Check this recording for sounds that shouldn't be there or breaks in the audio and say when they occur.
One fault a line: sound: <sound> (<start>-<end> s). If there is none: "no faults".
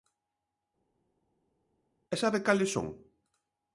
no faults